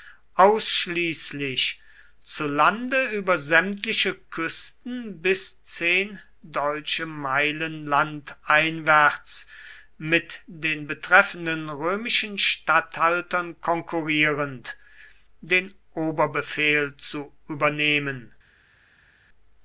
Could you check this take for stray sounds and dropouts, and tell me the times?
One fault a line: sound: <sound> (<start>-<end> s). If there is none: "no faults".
no faults